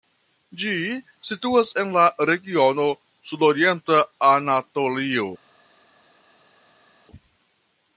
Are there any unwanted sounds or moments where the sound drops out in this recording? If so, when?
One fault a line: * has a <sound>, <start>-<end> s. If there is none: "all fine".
all fine